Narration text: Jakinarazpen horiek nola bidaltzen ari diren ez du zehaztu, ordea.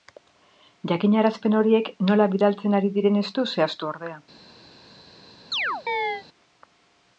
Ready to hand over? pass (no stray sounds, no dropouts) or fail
fail